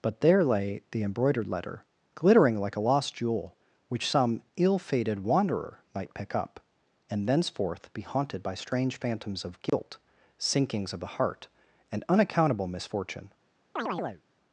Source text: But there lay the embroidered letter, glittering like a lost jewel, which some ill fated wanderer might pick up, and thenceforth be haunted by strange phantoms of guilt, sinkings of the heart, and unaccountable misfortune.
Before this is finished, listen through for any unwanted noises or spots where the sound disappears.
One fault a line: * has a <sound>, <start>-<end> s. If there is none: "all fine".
* has a dropout, 9.7-9.7 s
* has a chirp, 13.8-14.2 s